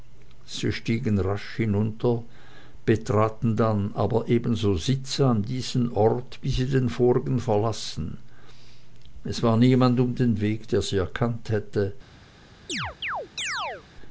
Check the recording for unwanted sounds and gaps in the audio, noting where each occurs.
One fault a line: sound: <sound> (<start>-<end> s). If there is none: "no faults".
sound: chirp (12.7-13.8 s)